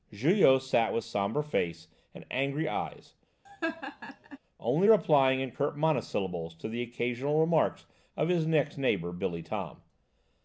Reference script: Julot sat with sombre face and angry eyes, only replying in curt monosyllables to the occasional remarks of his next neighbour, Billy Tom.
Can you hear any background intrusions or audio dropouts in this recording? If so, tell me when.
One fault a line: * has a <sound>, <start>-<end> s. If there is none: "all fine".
* has a laugh, 3.4-4.4 s